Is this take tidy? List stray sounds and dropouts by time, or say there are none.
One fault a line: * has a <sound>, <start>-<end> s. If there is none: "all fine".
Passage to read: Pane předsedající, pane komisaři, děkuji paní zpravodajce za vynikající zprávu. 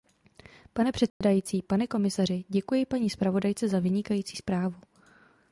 * has a dropout, 1.1-1.2 s